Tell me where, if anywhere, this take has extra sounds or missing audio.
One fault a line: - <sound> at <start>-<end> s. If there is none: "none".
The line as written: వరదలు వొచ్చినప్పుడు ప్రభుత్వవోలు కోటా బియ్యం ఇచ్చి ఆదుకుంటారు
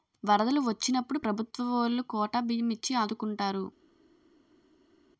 none